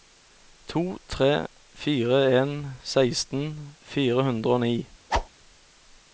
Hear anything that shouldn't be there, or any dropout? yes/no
yes